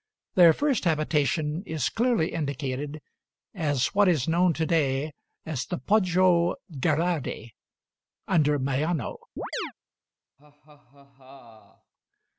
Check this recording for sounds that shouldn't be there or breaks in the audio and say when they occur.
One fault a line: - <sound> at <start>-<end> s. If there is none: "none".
- chirp at 9.4-9.7 s
- laugh at 10.4-11.9 s